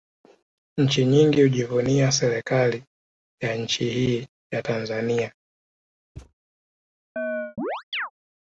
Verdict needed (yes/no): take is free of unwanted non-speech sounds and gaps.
no